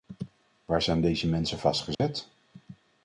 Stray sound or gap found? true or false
true